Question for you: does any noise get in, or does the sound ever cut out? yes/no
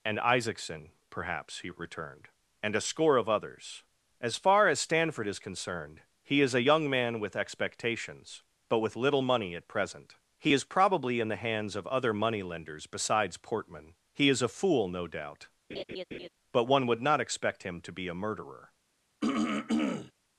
yes